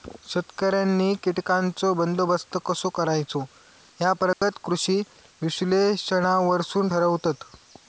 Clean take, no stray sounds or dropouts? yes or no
no